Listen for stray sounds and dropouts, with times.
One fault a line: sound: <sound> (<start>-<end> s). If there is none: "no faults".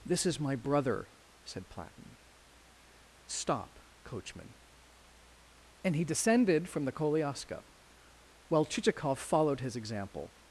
no faults